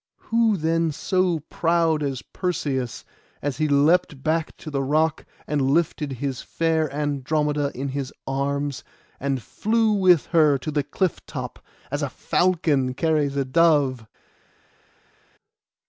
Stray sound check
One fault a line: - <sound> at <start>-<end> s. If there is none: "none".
none